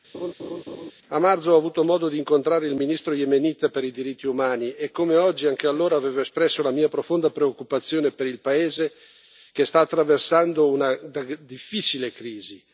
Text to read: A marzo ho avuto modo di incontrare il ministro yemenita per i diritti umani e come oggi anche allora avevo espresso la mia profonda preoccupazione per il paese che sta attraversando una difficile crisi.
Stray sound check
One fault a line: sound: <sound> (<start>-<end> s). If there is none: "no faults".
sound: laugh (0.1-0.9 s)